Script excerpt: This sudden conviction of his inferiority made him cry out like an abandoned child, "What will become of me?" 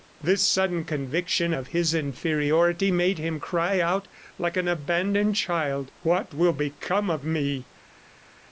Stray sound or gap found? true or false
false